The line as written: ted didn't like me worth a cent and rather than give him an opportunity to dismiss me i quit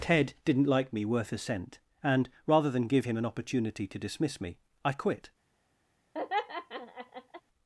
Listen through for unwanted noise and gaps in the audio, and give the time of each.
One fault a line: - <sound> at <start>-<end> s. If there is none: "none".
- laugh at 6.1-7.4 s